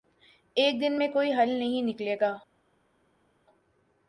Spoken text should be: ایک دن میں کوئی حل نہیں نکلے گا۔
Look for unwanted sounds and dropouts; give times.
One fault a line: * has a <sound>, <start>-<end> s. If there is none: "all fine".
all fine